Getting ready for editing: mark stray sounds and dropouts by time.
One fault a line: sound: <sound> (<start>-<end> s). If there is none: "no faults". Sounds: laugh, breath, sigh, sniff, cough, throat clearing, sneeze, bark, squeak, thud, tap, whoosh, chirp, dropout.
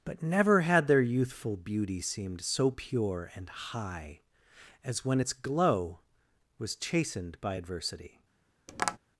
sound: tap (8.7-9.0 s)